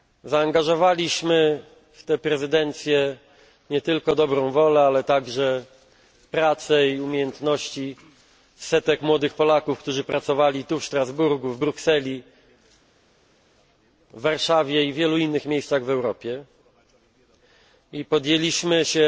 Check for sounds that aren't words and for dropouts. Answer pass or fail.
pass